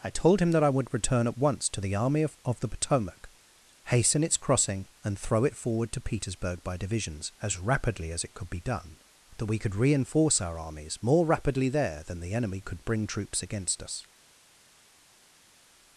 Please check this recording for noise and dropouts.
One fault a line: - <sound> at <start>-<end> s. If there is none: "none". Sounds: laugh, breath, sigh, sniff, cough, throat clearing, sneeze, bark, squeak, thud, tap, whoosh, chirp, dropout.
none